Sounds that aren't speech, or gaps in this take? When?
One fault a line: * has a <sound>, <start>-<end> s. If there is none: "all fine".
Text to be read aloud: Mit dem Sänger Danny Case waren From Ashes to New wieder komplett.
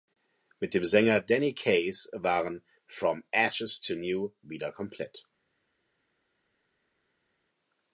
all fine